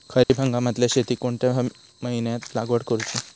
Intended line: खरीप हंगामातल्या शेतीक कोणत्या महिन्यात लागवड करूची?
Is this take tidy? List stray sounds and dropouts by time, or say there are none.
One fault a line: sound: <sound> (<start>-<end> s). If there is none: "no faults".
sound: dropout (0.2-0.3 s)